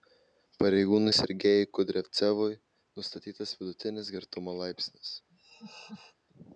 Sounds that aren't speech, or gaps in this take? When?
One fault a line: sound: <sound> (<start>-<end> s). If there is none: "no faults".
sound: laugh (5.3-6.2 s)